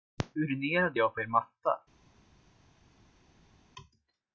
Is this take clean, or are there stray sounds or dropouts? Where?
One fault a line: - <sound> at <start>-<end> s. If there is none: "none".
none